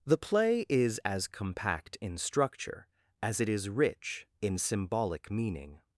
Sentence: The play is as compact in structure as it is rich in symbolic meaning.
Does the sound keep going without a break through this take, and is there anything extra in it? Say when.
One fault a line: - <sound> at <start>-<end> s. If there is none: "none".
none